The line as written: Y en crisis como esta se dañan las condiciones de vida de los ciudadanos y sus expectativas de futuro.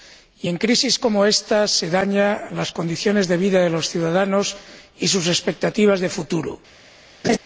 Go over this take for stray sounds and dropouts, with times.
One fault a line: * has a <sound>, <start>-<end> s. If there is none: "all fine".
* has a laugh, 7.2-7.4 s